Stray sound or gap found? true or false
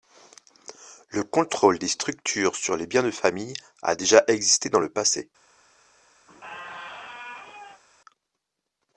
true